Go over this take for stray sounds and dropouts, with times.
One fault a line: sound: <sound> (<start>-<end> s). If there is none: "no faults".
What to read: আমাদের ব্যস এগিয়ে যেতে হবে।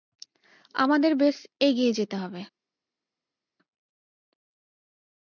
no faults